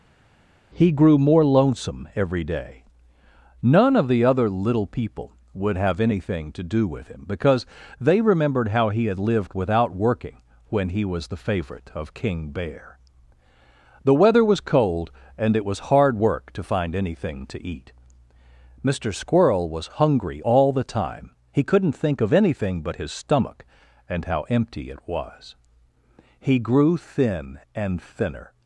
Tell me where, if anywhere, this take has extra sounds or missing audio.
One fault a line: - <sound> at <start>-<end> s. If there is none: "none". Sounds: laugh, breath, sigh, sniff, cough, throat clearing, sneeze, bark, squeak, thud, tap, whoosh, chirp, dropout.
none